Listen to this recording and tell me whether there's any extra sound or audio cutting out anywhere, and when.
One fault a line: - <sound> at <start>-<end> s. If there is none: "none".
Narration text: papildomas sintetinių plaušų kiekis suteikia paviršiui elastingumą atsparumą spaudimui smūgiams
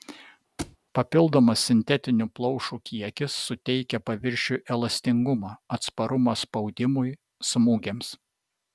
- thud at 0.6-0.8 s